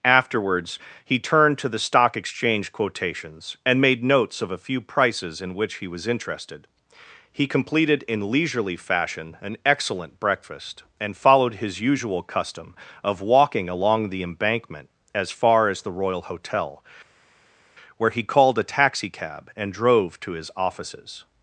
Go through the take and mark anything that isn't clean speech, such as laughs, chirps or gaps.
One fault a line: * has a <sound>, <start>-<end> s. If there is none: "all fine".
all fine